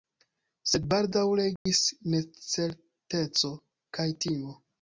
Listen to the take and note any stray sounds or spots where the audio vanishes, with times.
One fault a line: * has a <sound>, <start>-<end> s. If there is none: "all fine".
* has a dropout, 1.6-1.7 s